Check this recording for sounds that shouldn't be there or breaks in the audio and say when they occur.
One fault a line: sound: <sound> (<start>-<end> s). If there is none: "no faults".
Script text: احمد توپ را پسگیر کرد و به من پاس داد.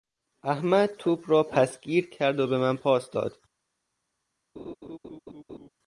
sound: laugh (4.6-5.7 s)